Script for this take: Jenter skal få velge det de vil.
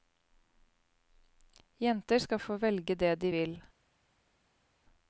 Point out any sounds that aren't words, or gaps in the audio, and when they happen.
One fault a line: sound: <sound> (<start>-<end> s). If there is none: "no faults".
no faults